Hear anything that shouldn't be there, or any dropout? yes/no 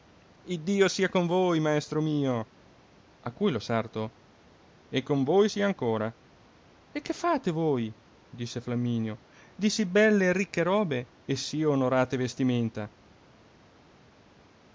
no